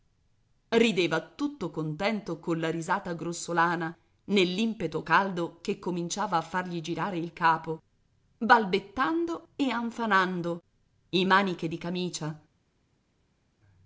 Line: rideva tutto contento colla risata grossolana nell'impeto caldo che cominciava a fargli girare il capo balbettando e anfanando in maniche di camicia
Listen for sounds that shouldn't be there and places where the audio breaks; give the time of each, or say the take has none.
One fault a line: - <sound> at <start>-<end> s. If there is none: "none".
none